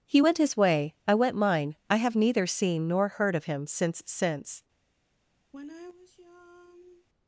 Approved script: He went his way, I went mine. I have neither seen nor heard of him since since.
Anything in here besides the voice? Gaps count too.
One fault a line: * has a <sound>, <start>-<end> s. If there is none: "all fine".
* has a sigh, 5.5-7.1 s